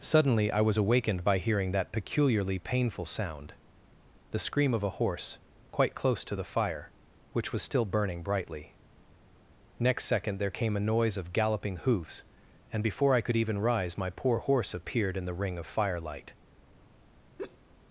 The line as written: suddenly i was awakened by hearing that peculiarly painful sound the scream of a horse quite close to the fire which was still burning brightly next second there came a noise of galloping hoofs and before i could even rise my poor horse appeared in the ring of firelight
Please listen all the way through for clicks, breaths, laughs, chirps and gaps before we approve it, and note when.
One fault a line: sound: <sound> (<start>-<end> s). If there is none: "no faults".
sound: laugh (17.4-17.6 s)